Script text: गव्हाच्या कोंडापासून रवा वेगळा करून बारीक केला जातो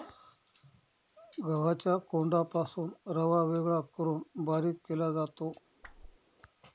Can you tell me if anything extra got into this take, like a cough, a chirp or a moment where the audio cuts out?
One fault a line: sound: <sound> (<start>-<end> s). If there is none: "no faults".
sound: whoosh (5.8-6.2 s)